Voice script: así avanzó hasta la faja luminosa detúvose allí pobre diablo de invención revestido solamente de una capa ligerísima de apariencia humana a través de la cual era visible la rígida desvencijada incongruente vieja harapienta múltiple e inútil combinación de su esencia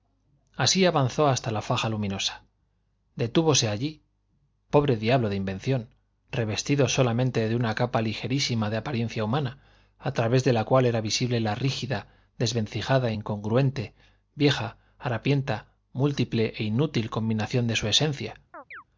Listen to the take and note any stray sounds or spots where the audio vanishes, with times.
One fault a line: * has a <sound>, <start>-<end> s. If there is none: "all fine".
* has a chirp, 18.5-18.8 s